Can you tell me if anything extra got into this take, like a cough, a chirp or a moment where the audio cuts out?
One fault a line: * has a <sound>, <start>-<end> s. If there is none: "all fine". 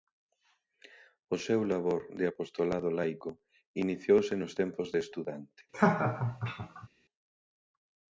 * has a laugh, 5.7-6.9 s